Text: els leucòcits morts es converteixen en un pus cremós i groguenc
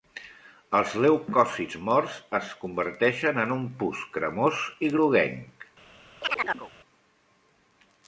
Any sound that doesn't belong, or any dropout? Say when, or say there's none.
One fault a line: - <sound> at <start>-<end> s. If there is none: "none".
- chirp at 6.2-6.7 s